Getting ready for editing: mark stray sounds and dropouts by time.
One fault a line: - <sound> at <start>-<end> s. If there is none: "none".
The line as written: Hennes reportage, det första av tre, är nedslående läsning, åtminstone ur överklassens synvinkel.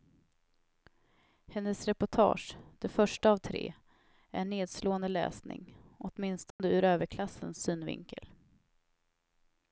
- dropout at 6.5-6.6 s